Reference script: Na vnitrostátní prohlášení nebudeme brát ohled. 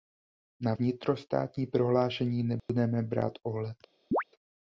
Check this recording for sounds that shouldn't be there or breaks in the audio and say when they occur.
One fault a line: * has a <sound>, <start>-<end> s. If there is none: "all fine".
* has a dropout, 2.6-2.7 s
* has a chirp, 4.1-4.2 s